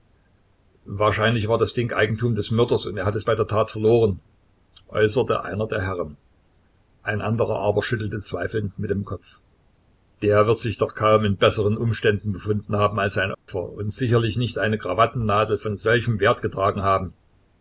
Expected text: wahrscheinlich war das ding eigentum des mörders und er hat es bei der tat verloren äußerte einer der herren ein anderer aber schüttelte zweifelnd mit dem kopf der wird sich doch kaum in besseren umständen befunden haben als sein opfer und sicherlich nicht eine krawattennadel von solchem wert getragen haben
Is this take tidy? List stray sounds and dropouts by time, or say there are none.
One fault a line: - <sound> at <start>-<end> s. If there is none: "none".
- dropout at 13.3-13.5 s